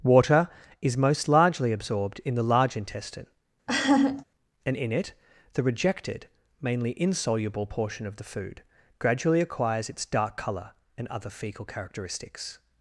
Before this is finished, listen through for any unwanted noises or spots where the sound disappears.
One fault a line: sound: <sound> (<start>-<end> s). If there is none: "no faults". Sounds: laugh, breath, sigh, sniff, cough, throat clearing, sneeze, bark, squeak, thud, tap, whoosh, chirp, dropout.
sound: laugh (3.7-4.3 s)